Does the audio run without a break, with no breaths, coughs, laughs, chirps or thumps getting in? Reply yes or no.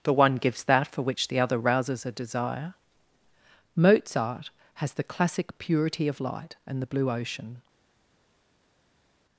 yes